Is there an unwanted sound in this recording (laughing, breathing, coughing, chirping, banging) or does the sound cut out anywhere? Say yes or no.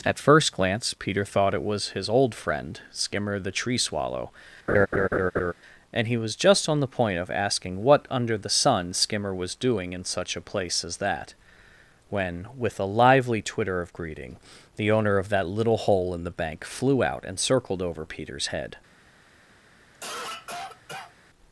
yes